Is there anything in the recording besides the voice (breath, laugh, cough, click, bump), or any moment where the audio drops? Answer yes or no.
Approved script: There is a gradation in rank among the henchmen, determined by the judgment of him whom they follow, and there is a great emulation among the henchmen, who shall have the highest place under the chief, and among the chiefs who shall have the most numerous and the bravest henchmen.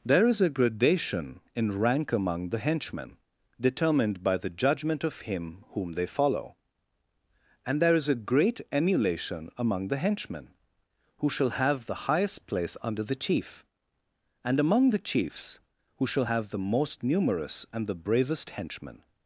no